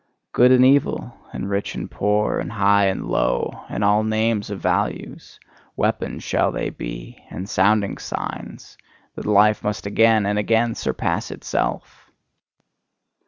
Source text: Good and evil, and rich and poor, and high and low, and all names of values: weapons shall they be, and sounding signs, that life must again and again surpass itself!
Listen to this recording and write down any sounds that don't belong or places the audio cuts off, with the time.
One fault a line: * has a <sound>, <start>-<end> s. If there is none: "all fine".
all fine